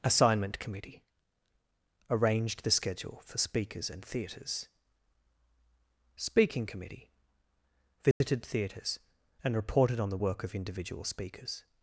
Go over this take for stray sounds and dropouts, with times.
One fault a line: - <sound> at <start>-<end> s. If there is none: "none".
- dropout at 8.1-8.2 s